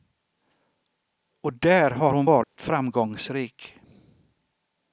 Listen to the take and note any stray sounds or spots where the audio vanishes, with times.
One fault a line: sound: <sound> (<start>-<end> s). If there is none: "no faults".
sound: dropout (2.4-2.6 s)